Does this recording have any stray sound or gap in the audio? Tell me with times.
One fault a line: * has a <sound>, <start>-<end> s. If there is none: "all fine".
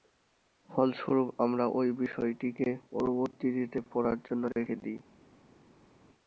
all fine